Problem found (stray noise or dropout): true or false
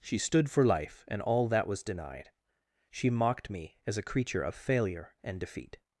false